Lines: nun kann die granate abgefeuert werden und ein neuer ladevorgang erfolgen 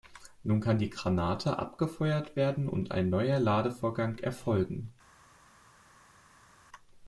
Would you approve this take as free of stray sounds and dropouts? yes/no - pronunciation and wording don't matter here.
yes